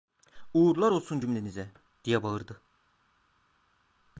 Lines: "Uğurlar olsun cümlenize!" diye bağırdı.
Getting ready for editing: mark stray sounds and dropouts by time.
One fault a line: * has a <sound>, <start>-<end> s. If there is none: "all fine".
all fine